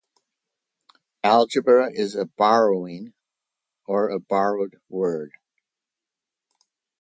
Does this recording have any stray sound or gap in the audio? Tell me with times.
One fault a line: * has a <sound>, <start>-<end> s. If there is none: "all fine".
all fine